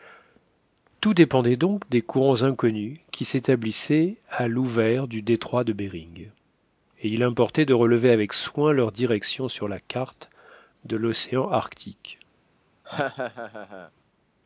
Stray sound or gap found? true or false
true